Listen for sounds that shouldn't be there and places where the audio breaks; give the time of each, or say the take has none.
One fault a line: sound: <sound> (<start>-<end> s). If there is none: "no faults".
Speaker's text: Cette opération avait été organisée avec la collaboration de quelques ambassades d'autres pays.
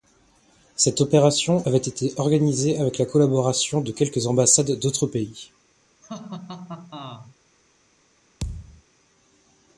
sound: laugh (6.0-7.3 s)
sound: thud (8.4-8.8 s)